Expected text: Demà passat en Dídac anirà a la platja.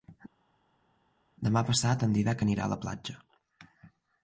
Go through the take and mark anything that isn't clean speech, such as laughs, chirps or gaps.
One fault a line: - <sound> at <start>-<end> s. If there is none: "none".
none